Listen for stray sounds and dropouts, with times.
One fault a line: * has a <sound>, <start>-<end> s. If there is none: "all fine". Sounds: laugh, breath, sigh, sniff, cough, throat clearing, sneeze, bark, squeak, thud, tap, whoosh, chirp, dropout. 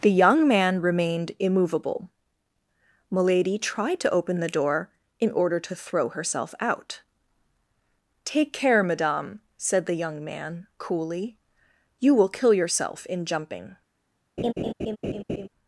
* has a laugh, 14.4-15.5 s